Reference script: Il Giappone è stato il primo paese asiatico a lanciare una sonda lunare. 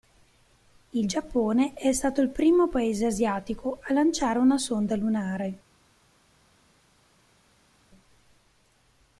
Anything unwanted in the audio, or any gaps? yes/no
no